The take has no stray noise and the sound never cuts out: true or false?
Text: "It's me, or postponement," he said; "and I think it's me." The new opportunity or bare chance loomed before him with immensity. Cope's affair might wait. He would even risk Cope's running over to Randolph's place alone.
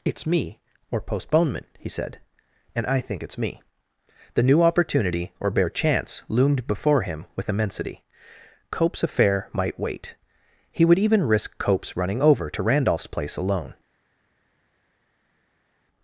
true